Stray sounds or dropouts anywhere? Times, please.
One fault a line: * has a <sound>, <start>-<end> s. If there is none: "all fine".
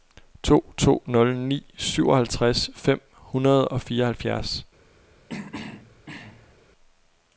* has a throat clearing, 5.3-6.6 s